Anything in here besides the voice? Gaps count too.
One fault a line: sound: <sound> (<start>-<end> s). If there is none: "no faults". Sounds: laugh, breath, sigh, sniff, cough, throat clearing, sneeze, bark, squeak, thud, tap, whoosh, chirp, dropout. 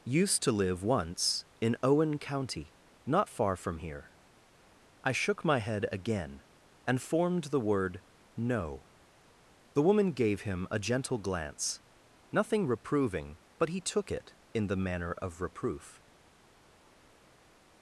no faults